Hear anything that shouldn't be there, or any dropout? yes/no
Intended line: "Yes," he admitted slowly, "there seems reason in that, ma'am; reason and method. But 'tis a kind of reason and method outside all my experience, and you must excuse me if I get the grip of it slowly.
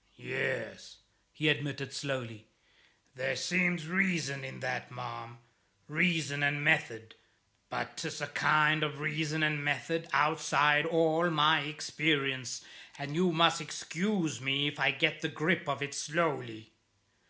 no